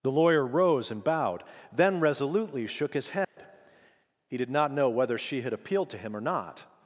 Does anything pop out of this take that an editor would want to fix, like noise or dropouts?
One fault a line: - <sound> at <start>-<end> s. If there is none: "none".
- dropout at 3.2-3.4 s